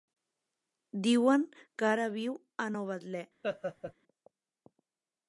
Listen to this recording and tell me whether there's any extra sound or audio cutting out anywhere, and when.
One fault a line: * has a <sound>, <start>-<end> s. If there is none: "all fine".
* has a laugh, 3.4-3.9 s